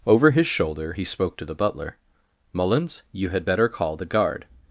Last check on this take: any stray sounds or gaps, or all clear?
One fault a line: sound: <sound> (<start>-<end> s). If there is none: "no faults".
no faults